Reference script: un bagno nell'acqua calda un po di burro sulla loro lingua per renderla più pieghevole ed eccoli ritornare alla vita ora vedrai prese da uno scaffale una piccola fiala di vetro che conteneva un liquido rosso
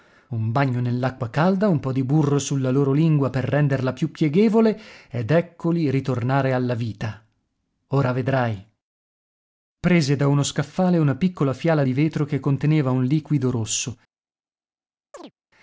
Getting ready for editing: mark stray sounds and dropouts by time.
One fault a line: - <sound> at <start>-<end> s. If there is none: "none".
- chirp at 15.1-15.3 s